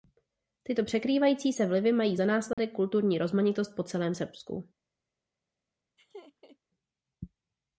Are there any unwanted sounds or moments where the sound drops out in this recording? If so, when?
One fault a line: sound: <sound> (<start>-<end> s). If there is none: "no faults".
sound: dropout (2.5-2.6 s)
sound: laugh (6.0-6.6 s)